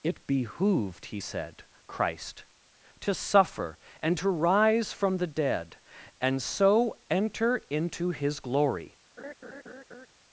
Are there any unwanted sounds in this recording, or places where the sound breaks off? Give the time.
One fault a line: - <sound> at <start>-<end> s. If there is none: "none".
- laugh at 9.2-10.1 s